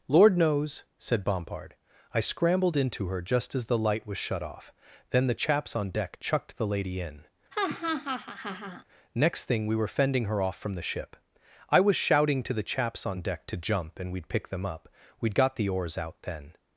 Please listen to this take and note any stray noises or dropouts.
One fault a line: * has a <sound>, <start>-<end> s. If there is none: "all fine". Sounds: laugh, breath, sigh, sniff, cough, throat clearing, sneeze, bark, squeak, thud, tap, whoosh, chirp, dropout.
* has a laugh, 7.5-8.8 s